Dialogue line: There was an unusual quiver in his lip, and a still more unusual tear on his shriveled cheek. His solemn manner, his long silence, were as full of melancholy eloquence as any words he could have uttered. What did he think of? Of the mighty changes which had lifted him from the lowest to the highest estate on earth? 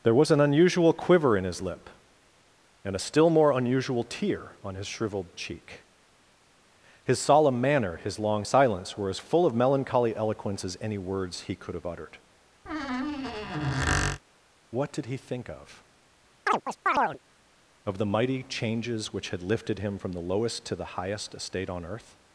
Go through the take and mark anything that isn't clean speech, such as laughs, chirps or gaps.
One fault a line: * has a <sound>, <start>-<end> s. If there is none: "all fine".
* has a squeak, 12.7-14.2 s
* has a chirp, 16.5-17.2 s